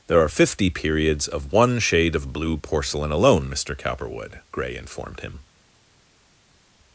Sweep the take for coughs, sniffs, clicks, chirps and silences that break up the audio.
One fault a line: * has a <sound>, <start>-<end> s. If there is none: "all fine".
all fine